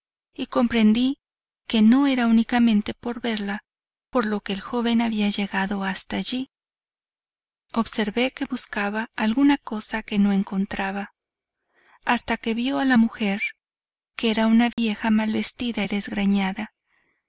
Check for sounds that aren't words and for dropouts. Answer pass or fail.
fail